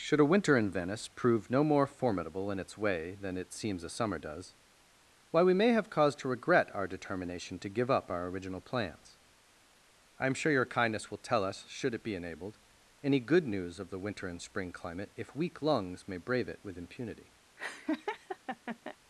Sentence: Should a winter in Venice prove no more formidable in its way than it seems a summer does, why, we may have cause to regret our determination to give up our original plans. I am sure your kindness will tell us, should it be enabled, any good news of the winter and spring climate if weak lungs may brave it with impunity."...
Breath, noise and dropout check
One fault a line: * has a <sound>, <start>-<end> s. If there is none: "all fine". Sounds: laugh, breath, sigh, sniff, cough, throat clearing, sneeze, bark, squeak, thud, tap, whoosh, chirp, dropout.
* has a laugh, 17.6-19.0 s